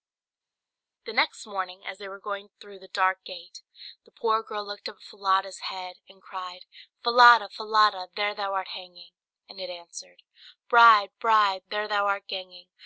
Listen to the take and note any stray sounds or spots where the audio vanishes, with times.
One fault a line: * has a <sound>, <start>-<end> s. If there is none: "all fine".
all fine